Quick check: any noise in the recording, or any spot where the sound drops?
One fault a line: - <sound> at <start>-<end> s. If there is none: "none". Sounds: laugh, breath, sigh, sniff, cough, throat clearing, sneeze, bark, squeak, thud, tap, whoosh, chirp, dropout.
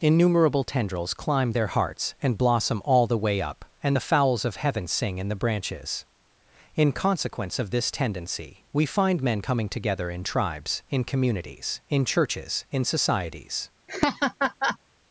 - laugh at 13.9-14.8 s